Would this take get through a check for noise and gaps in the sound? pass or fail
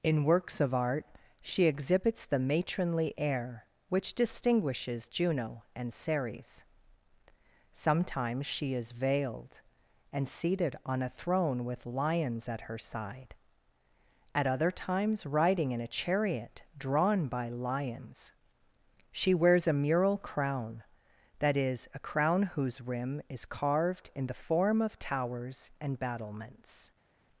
pass